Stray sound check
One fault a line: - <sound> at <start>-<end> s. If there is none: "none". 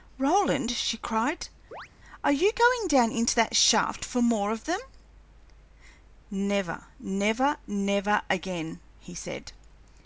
- chirp at 1.7-1.9 s